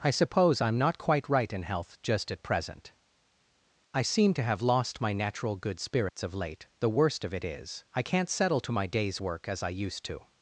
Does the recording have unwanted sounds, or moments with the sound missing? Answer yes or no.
yes